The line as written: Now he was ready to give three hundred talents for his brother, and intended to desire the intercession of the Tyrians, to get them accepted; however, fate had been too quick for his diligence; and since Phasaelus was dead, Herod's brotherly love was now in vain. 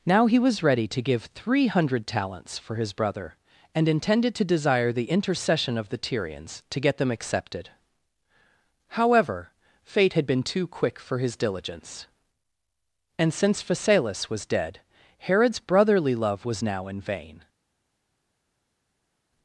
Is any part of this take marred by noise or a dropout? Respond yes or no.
no